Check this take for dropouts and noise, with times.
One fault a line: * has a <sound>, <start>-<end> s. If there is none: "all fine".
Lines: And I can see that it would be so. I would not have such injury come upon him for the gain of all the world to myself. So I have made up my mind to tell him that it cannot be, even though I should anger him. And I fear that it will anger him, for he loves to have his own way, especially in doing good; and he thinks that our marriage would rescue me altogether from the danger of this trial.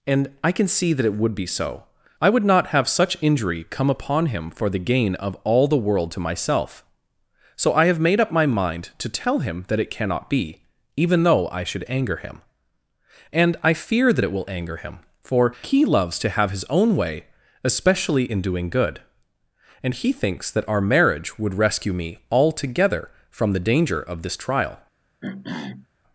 * has a throat clearing, 25.2-25.9 s